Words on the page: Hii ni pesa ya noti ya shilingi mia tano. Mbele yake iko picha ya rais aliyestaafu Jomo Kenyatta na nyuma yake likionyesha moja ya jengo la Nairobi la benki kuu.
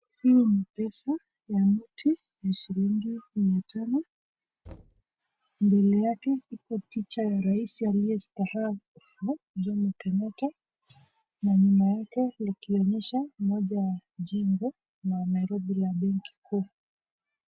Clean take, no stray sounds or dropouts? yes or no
no